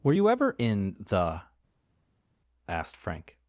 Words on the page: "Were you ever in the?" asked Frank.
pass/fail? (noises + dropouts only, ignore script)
pass